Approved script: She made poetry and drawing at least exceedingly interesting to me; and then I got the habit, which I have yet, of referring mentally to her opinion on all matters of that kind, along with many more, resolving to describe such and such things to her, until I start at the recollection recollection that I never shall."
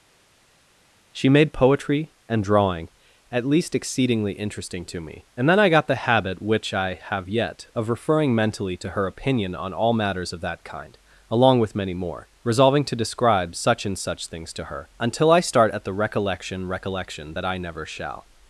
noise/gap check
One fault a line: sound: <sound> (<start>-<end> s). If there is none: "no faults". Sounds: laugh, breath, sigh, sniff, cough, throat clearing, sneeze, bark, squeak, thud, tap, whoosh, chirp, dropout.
no faults